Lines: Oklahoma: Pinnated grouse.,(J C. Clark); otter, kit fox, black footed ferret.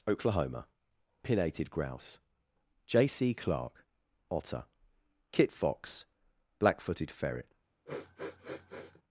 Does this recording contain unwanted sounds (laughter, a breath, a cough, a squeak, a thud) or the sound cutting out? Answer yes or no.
yes